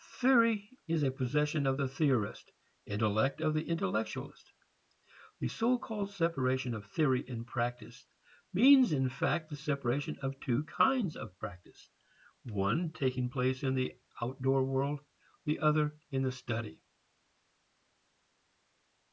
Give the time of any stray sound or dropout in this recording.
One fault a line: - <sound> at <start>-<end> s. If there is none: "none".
none